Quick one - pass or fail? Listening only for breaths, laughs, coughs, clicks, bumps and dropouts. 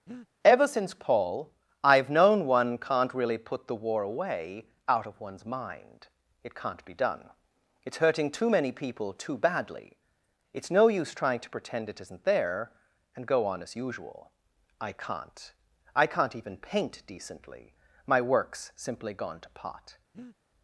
fail